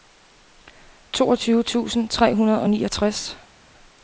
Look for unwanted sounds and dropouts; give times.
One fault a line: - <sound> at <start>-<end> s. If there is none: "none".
none